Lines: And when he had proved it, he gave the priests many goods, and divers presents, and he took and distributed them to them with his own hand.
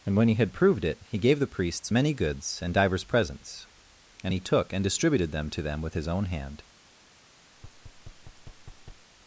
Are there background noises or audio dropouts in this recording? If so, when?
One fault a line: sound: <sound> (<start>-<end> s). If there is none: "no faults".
sound: thud (7.5-9.1 s)